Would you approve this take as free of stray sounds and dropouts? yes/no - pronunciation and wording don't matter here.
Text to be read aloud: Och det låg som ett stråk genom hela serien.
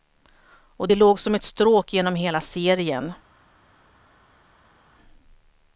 yes